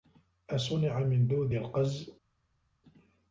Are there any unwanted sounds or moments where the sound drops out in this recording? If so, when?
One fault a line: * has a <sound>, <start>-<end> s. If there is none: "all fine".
all fine